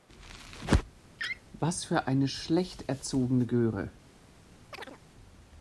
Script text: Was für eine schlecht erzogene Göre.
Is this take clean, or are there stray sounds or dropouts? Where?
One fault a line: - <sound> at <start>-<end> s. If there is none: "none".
- laugh at 1.2-1.4 s
- chirp at 4.7-5.0 s